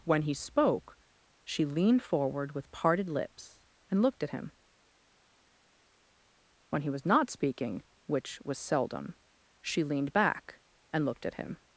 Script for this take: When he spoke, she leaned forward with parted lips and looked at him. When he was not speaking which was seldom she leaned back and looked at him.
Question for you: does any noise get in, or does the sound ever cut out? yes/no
no